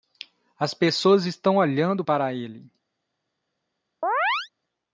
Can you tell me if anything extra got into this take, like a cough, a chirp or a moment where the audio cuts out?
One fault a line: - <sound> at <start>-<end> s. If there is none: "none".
- chirp at 4.0-4.5 s